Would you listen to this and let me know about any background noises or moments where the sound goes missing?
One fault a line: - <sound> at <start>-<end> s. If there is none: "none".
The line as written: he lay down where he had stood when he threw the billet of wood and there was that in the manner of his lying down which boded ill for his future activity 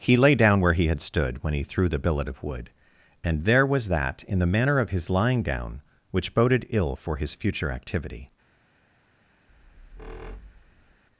- squeak at 9.5-11.0 s